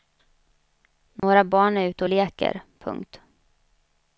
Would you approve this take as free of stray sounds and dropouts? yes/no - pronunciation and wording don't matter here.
no